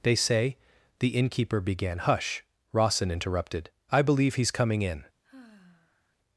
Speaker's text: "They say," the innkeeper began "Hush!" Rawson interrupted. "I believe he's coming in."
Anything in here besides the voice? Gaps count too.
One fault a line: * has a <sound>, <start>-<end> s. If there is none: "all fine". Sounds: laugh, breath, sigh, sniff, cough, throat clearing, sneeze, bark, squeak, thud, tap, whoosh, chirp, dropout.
* has a sigh, 5.2-6.2 s